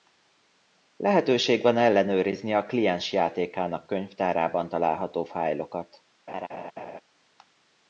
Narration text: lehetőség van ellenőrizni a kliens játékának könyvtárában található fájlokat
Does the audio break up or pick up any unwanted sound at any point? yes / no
yes